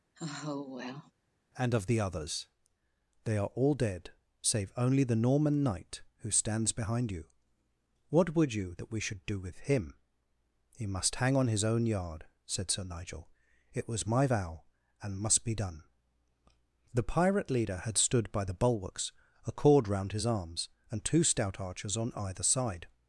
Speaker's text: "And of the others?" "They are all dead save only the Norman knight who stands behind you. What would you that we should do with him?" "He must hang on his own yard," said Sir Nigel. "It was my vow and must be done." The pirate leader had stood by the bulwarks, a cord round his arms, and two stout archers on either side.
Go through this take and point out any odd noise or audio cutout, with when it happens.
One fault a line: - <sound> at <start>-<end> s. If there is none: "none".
- sigh at 0.1-1.1 s